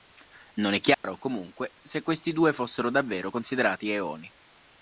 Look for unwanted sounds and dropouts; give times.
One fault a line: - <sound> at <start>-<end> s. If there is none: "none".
- dropout at 0.9-1.0 s